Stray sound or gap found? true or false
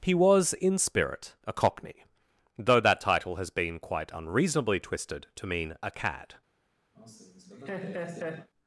true